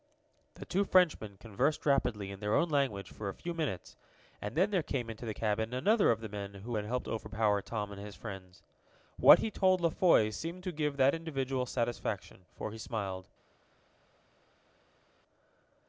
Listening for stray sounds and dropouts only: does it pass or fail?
pass